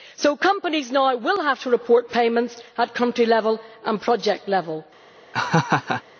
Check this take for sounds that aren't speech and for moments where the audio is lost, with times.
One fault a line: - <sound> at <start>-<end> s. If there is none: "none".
- laugh at 5.3-6.0 s